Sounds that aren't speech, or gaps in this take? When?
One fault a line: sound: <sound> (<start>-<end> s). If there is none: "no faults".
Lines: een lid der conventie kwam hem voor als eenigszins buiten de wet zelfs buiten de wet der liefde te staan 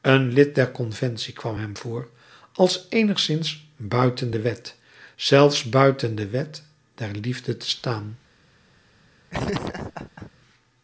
sound: laugh (9.3-10.3 s)